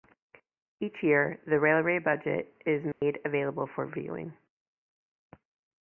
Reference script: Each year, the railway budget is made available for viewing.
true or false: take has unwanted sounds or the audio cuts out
true